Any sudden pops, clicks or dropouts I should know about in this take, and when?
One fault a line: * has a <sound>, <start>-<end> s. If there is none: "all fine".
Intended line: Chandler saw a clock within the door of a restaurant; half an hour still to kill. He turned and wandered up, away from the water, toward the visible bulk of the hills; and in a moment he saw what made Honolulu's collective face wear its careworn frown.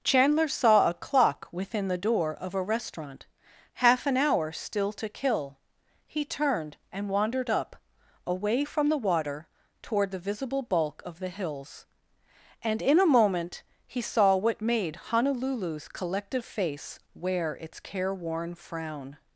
all fine